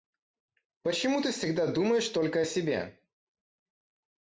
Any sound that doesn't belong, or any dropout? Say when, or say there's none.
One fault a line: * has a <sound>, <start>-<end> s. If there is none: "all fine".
all fine